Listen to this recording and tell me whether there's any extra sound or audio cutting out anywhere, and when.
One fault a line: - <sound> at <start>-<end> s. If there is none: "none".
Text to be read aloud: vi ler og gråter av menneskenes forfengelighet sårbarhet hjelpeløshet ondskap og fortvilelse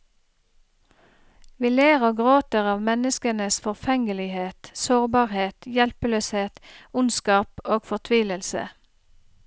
none